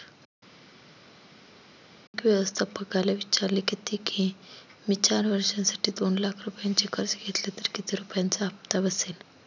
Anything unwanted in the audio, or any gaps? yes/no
no